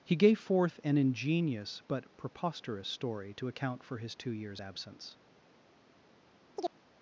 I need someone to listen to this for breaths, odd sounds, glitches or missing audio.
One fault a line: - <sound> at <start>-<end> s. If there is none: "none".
- chirp at 6.6-6.7 s